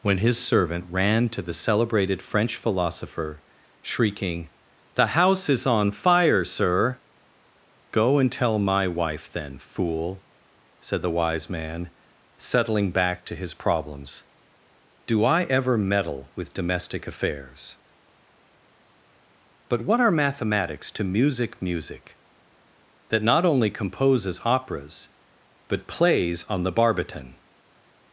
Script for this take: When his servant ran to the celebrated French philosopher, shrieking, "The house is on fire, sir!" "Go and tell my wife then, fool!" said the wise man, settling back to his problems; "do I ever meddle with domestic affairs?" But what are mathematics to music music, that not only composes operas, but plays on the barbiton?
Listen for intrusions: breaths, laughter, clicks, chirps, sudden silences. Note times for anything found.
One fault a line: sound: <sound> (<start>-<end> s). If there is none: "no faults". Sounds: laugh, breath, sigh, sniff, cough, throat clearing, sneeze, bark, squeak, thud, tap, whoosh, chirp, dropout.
no faults